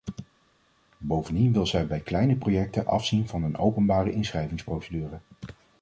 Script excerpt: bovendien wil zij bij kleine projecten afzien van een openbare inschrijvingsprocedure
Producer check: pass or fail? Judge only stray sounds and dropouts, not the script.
pass